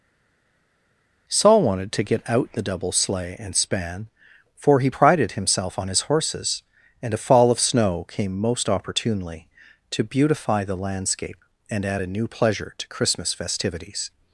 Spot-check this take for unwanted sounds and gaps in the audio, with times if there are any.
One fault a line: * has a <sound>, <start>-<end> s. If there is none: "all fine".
all fine